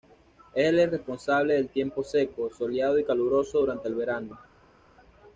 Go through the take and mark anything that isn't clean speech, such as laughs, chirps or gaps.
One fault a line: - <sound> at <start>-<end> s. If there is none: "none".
none